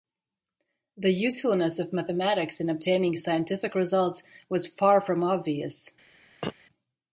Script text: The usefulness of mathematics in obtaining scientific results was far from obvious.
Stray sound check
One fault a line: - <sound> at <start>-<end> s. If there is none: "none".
- throat clearing at 6.4-6.5 s